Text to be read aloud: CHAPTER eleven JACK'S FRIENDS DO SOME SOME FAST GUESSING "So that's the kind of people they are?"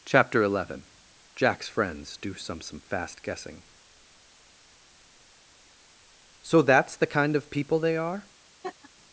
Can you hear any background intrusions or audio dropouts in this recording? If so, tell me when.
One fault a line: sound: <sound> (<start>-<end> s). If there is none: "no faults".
sound: laugh (8.6-8.9 s)